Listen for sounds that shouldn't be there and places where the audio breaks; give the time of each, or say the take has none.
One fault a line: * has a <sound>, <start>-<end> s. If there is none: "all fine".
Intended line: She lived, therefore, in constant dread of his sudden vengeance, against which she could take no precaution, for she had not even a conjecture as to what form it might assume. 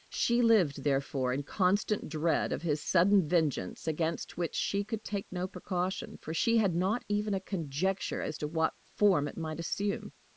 all fine